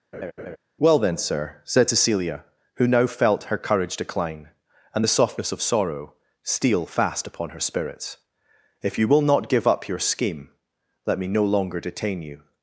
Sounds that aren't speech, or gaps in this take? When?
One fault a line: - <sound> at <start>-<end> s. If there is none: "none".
- laugh at 0.1-0.6 s